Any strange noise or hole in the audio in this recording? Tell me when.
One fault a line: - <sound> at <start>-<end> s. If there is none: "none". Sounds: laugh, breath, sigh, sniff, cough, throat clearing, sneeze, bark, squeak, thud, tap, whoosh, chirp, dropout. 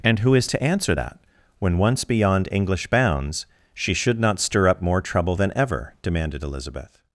none